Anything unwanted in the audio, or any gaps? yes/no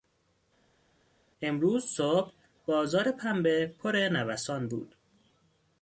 no